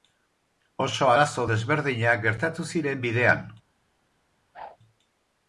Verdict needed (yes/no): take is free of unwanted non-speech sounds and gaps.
no